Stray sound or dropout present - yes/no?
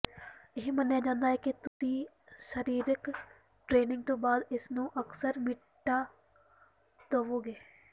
yes